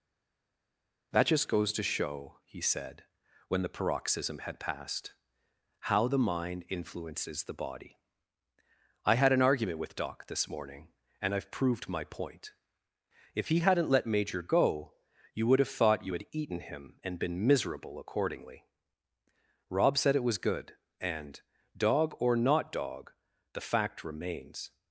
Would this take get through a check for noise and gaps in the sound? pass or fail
pass